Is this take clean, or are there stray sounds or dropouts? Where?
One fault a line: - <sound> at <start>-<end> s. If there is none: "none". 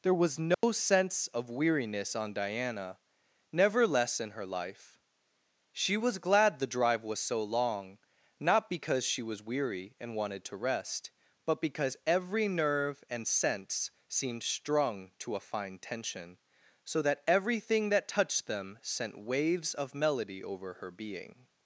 - dropout at 0.5-0.6 s